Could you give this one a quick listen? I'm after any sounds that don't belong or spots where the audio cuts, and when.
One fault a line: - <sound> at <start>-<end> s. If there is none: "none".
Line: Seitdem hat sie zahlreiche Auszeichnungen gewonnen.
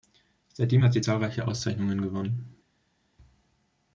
none